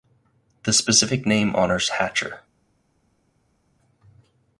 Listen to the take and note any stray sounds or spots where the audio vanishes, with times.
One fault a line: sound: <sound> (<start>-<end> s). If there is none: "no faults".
no faults